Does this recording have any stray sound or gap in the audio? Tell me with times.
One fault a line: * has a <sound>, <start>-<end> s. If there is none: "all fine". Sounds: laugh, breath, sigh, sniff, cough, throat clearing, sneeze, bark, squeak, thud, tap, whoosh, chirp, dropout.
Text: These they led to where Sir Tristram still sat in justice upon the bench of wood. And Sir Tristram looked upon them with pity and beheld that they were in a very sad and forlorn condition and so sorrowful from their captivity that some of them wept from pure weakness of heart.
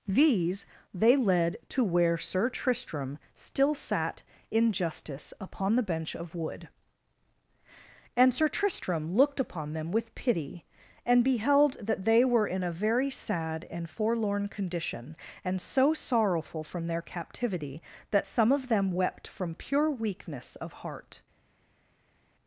all fine